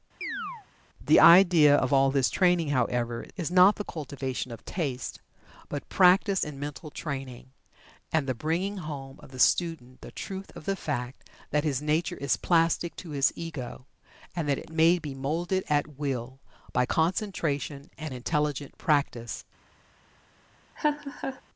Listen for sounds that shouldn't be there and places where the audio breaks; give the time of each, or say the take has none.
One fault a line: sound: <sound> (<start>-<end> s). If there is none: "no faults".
sound: chirp (0.2-0.7 s)
sound: laugh (20.8-21.4 s)